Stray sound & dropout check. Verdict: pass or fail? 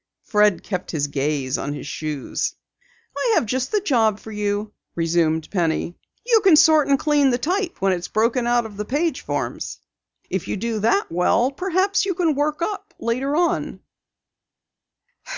pass